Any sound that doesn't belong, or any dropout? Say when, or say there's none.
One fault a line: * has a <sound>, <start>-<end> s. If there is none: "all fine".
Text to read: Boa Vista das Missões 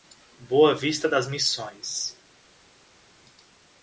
all fine